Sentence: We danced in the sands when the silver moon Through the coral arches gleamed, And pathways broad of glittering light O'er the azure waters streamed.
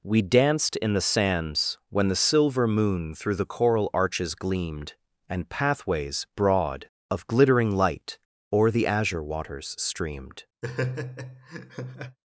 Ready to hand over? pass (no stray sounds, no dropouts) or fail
fail